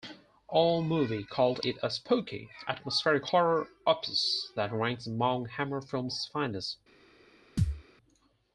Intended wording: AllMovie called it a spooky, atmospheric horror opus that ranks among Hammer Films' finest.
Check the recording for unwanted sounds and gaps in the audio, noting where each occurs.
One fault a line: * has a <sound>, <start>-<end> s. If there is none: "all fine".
* has a thud, 7.6-7.8 s